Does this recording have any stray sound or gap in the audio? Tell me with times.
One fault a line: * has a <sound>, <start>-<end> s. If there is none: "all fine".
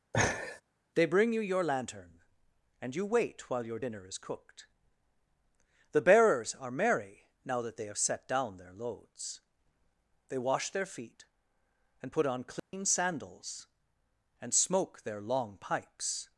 * has a laugh, 0.1-0.6 s
* has a dropout, 12.6-12.7 s